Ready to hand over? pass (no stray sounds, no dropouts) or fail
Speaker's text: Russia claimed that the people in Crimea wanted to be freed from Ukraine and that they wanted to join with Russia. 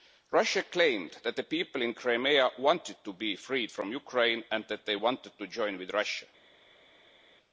pass